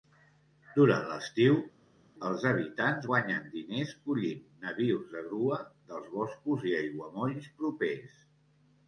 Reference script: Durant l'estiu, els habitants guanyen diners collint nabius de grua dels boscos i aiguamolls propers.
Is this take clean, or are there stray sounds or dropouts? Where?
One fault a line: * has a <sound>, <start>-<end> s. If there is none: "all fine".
all fine